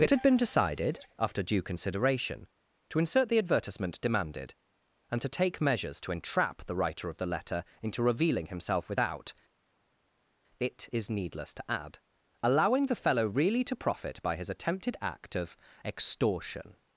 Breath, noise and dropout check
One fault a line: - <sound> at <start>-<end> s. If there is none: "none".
none